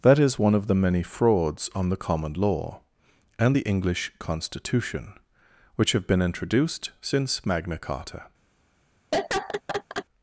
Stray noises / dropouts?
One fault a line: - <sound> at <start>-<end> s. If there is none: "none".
- laugh at 9.1-10.1 s